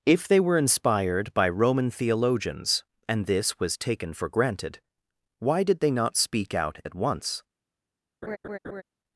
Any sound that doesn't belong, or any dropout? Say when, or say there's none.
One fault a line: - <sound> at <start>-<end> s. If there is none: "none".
- laugh at 8.2-8.8 s